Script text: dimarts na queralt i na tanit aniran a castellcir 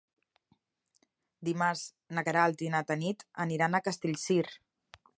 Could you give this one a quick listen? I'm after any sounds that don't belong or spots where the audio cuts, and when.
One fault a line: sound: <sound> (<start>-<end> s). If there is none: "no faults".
no faults